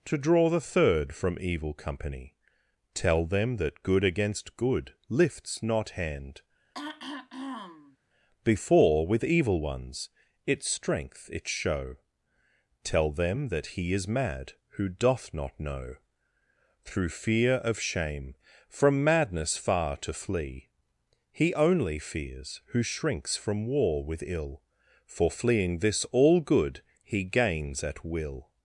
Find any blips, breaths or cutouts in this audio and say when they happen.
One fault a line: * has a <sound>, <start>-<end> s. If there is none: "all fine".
* has a throat clearing, 6.7-8.0 s